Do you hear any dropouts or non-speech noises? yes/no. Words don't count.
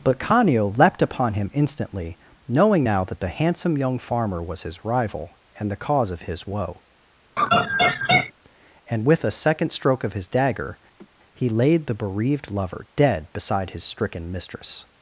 yes